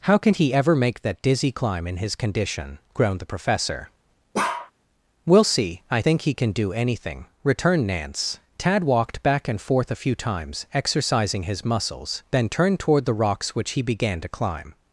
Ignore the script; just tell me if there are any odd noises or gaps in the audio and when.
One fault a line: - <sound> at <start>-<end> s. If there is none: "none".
- bark at 4.3-4.7 s